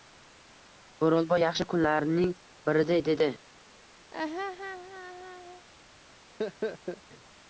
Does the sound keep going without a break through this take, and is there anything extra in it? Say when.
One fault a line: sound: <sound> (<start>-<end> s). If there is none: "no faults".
sound: laugh (4.1-5.7 s)
sound: laugh (6.4-7.0 s)